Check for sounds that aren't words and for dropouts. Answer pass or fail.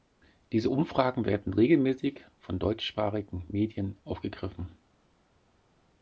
pass